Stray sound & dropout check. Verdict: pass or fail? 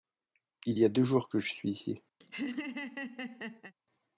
fail